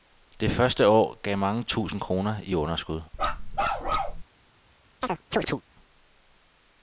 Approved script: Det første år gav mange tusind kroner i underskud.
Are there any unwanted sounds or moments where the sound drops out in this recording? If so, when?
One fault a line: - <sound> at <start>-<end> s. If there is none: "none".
- bark at 3.1-4.2 s
- chirp at 5.0-5.6 s